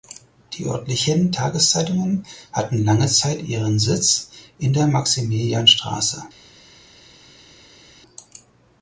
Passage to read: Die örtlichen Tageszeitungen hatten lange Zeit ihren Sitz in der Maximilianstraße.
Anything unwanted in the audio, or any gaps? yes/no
no